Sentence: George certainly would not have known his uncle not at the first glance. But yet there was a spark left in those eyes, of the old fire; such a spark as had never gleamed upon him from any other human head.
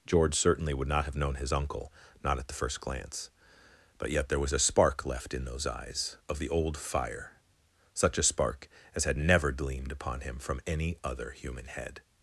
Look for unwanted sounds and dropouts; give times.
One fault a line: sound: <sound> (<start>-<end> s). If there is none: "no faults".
no faults